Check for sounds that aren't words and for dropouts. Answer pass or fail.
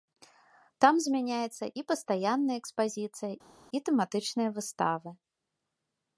pass